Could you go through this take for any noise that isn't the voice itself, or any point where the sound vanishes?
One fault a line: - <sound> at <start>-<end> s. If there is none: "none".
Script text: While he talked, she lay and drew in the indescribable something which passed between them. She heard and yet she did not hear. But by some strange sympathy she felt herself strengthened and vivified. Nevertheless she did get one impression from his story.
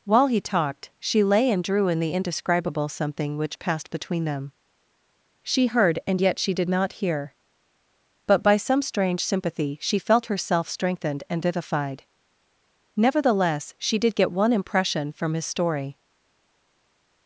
none